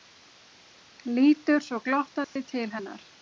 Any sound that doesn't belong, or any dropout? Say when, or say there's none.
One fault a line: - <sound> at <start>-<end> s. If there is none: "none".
- dropout at 2.2-2.4 s